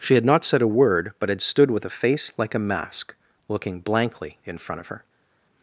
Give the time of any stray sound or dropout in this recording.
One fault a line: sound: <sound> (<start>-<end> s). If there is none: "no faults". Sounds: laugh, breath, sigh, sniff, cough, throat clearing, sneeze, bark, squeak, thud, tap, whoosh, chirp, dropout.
no faults